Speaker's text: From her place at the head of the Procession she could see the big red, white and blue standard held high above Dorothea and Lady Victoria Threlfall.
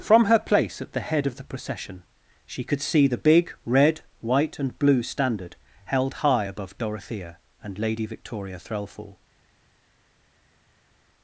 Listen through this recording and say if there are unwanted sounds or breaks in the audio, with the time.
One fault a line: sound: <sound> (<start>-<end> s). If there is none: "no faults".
no faults